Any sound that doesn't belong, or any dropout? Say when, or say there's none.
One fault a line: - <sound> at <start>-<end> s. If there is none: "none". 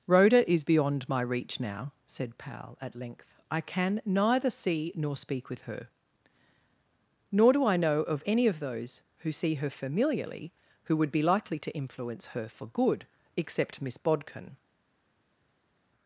none